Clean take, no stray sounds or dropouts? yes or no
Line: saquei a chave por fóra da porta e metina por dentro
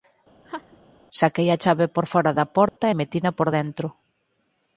no